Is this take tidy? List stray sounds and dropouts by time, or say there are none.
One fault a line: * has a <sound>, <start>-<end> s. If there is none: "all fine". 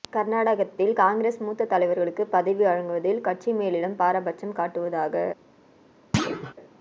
* has a thud, 6.1-6.5 s